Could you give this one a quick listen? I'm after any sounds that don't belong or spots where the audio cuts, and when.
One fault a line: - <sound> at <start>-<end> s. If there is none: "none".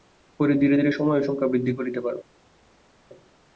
none